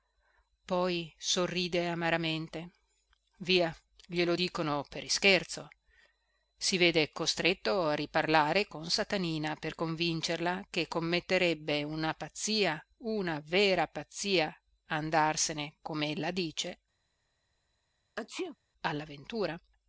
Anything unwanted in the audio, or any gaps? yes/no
yes